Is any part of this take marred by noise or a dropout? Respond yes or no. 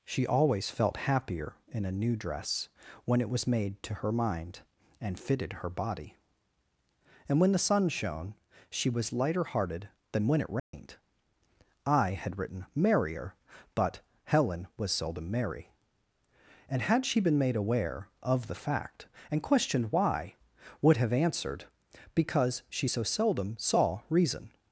yes